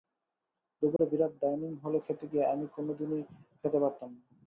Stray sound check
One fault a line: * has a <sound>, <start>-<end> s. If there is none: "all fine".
* has a dropout, 1.0-1.0 s